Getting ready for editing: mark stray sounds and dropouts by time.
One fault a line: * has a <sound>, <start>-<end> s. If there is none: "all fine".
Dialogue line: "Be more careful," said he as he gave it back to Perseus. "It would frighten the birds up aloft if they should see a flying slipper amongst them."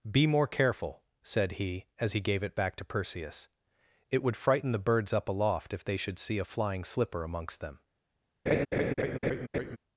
* has a laugh, 8.5-9.8 s